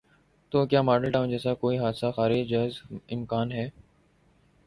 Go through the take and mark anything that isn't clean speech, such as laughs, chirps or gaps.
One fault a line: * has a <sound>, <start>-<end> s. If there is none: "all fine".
all fine